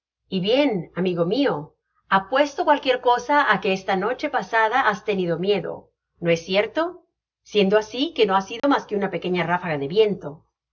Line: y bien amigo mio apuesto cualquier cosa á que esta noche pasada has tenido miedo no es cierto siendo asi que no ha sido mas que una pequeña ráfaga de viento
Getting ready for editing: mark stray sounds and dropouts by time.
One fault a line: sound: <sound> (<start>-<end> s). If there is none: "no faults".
sound: dropout (8.6-8.6 s)